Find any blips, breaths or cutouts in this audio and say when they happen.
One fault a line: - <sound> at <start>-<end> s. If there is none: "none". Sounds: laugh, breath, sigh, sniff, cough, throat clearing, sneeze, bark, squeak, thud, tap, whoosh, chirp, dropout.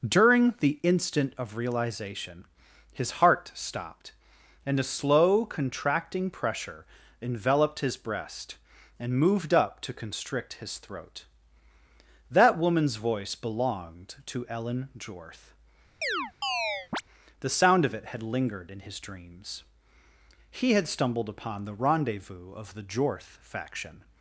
- chirp at 16.0-17.0 s